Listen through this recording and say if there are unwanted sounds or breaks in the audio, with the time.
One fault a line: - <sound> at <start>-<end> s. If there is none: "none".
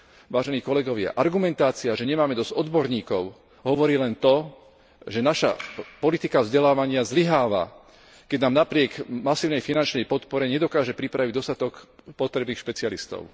none